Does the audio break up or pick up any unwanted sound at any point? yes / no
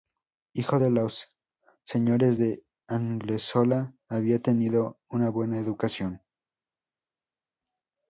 no